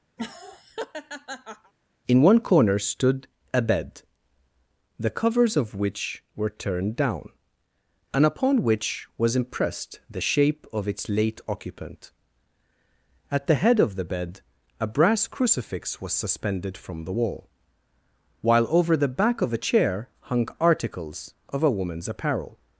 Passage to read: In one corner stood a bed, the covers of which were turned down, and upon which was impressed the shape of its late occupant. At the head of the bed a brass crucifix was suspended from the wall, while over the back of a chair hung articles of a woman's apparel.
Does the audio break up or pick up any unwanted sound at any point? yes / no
yes